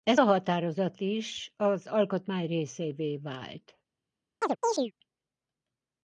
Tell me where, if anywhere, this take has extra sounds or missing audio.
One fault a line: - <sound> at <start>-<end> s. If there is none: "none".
- chirp at 4.4-4.9 s